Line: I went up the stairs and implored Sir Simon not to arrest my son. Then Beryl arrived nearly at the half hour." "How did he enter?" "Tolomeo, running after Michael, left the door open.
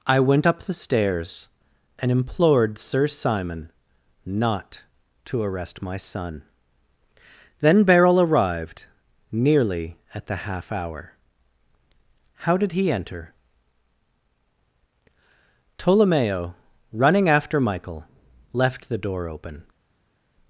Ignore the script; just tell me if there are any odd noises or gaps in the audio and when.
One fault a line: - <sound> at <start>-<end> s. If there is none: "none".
none